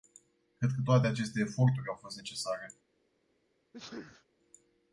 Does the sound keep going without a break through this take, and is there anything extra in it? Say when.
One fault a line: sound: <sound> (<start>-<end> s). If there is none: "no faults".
sound: sneeze (3.7-4.3 s)